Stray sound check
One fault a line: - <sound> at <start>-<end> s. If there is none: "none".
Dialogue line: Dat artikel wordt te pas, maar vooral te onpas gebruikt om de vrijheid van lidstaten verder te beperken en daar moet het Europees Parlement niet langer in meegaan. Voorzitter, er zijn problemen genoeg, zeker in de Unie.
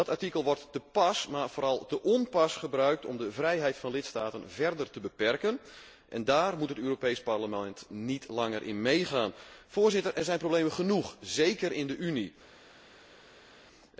none